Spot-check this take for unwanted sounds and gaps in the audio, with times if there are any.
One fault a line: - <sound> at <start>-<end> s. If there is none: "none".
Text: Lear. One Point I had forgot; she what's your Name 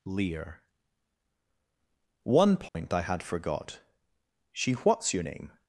- dropout at 2.7-2.7 s